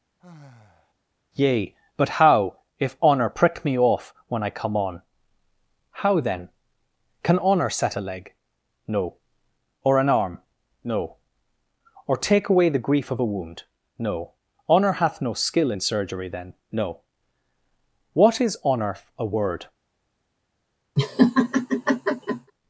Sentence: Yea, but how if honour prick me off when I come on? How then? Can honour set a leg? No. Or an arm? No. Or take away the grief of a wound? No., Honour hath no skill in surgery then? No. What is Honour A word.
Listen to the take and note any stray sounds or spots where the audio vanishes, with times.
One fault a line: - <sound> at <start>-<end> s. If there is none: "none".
- sigh at 0.2-0.9 s
- laugh at 21.0-22.5 s